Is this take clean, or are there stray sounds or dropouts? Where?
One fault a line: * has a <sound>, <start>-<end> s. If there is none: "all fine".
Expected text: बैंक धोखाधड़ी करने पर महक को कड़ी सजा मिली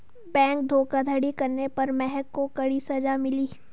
all fine